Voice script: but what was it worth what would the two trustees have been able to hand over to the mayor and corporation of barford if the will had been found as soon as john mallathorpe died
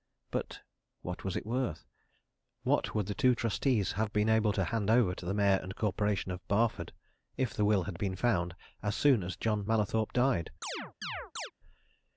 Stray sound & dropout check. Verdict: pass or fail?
fail